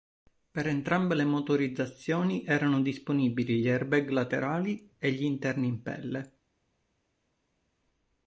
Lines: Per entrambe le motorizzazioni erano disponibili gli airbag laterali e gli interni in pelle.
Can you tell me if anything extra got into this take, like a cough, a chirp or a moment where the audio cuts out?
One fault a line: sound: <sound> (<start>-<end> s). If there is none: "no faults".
no faults